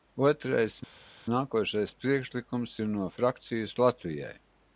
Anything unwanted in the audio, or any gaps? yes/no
no